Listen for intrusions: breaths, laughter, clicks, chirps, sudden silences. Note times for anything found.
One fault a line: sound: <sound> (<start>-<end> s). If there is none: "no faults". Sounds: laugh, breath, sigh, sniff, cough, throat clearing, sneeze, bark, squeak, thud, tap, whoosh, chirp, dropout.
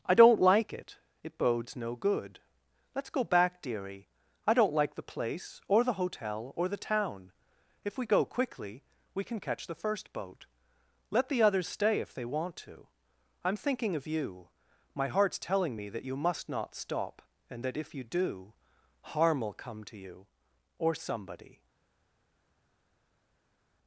no faults